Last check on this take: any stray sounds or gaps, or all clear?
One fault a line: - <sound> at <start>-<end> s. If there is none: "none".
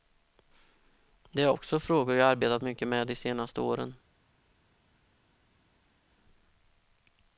none